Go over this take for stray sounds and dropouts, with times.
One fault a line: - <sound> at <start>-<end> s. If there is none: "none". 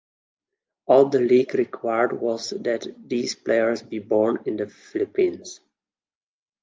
none